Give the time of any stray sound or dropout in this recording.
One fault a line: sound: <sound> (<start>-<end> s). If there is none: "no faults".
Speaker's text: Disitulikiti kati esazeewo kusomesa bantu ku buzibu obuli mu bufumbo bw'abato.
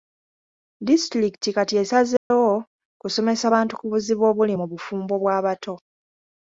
sound: dropout (2.2-2.3 s)